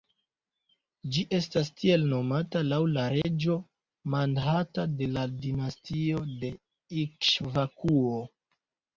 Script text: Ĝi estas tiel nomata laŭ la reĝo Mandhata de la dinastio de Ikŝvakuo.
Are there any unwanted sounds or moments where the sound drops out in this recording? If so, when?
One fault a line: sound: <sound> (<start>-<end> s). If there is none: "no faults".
sound: dropout (3.2-3.2 s)